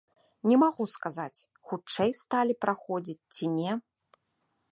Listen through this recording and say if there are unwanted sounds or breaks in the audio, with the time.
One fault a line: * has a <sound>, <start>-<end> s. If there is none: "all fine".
all fine